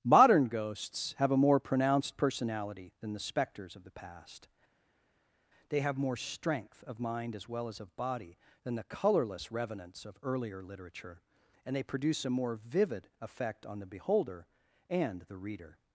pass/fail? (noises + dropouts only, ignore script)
pass